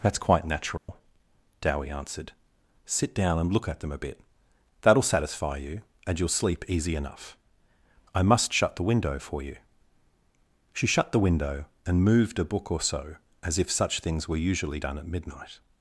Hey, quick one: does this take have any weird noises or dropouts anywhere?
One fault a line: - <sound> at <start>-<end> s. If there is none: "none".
- dropout at 0.8-0.9 s